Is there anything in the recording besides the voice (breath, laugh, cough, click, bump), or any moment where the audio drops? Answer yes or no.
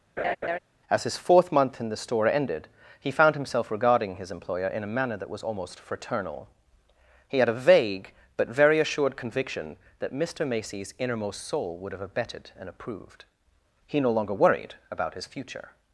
yes